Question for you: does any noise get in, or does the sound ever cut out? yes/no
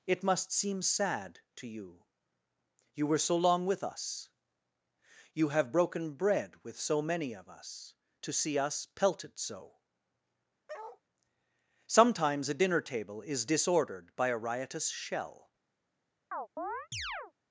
yes